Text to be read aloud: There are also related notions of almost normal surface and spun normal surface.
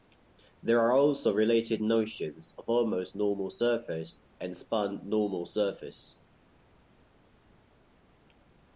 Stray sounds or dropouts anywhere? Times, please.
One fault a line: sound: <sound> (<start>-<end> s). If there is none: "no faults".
no faults